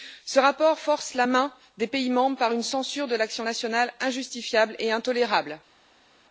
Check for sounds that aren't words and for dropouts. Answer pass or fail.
pass